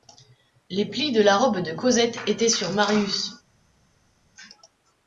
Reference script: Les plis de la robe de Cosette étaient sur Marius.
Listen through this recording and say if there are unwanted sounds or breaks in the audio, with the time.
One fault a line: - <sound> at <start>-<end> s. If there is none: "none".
none